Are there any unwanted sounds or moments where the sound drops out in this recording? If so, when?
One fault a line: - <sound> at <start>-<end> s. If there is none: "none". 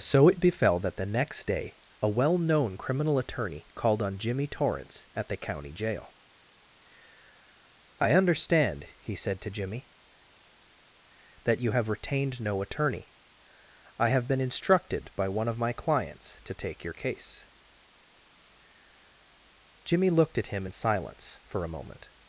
none